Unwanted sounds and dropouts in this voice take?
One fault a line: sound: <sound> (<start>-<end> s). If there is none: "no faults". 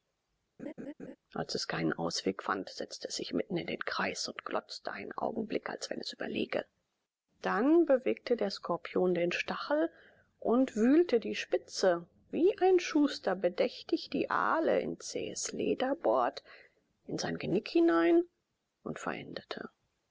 sound: laugh (0.6-1.2 s)